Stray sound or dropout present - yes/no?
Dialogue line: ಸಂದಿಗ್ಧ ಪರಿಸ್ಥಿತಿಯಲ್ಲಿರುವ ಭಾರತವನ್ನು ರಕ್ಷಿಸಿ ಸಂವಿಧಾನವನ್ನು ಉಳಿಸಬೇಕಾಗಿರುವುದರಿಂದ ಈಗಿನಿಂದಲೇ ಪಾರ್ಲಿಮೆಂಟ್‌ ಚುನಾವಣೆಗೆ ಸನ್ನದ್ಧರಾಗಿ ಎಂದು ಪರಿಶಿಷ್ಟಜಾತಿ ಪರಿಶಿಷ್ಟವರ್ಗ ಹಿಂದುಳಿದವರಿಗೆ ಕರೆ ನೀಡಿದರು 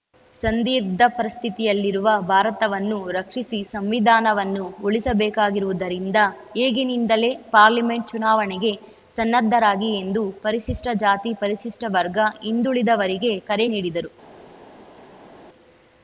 no